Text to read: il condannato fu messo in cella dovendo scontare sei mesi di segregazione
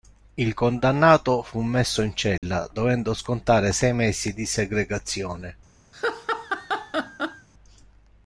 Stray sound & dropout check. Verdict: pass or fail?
fail